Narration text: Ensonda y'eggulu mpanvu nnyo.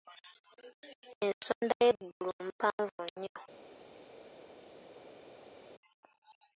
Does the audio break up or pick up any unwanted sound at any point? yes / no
no